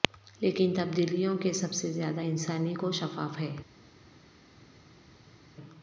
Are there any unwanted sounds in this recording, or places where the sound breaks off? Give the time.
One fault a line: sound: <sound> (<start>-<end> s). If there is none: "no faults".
no faults